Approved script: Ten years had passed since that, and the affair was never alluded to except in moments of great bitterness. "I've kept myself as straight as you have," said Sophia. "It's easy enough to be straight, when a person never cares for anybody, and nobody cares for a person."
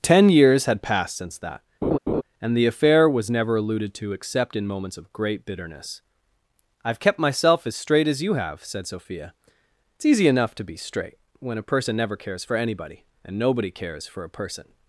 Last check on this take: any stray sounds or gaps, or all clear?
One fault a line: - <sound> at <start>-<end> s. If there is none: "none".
- laugh at 1.8-2.2 s